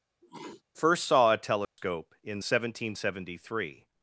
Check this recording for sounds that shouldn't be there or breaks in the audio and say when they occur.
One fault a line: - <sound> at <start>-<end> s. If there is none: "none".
- sneeze at 0.2-0.6 s
- dropout at 1.6-1.8 s